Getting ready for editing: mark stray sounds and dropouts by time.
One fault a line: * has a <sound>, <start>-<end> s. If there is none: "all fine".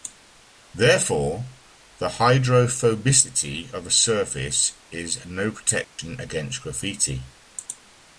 * has a dropout, 5.8-6.0 s